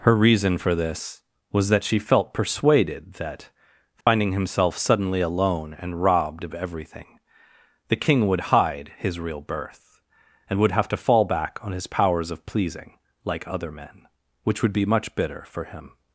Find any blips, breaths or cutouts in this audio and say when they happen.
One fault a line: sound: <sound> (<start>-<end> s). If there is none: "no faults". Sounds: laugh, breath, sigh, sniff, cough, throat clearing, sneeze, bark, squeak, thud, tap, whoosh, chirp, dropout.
sound: dropout (4.0-4.1 s)